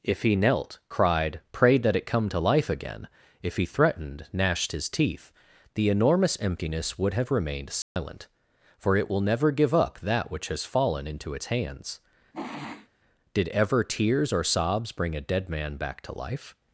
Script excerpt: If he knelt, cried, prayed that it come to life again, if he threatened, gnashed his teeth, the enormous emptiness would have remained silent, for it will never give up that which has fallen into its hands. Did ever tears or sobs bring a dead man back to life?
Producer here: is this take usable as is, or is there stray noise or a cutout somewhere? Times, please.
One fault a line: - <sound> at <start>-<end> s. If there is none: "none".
- dropout at 7.8-8.0 s
- sniff at 12.3-12.9 s